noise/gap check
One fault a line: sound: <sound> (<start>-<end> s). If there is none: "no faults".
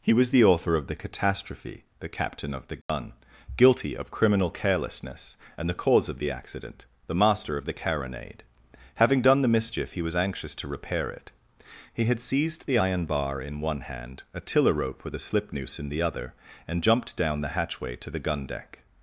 sound: dropout (2.8-2.9 s)